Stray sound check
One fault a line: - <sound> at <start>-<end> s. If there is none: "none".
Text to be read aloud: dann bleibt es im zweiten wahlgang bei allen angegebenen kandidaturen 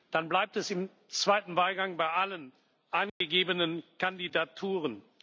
- dropout at 3.1-3.2 s